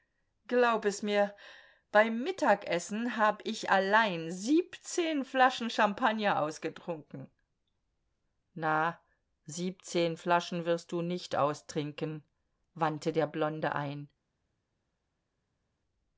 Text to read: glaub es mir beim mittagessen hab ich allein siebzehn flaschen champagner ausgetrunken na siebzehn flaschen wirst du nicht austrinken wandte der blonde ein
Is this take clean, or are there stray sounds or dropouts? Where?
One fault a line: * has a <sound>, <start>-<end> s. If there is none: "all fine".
all fine